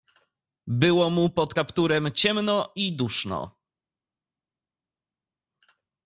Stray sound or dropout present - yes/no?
no